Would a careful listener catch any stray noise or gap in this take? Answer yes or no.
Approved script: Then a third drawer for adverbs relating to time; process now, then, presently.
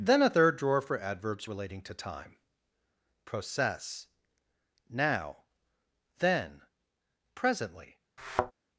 yes